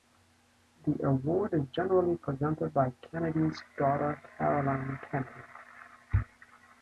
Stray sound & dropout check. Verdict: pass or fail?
pass